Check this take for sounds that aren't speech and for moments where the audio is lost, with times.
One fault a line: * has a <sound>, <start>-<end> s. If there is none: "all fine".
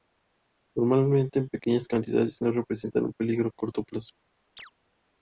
* has a chirp, 4.6-4.7 s